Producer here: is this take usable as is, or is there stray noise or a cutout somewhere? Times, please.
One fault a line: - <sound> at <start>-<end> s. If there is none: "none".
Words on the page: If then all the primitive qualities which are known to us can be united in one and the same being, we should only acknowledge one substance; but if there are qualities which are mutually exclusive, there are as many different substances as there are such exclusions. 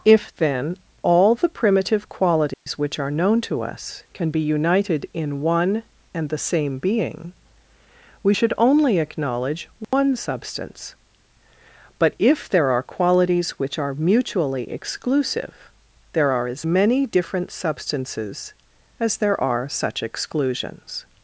- dropout at 2.5-2.7 s
- dropout at 9.8-9.9 s